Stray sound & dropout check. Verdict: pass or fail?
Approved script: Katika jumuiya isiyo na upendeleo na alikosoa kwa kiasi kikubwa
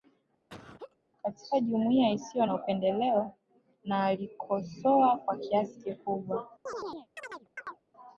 fail